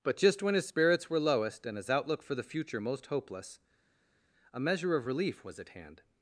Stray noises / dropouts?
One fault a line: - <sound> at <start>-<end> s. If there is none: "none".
none